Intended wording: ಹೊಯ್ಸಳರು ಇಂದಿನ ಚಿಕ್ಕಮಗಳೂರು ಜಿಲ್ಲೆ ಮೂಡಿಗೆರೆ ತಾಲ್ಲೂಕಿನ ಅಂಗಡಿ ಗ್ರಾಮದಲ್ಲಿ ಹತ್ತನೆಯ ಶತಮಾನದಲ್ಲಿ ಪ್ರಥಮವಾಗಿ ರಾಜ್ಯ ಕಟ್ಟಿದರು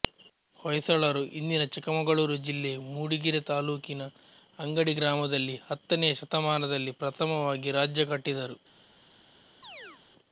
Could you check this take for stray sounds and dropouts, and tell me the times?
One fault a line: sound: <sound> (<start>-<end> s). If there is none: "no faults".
sound: chirp (9.6-10.0 s)